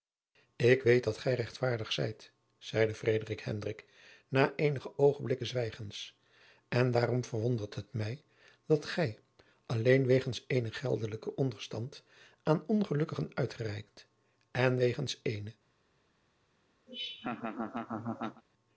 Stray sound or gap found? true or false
true